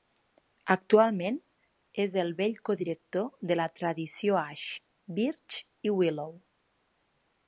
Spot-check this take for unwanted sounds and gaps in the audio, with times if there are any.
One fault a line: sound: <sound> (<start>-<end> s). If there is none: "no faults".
no faults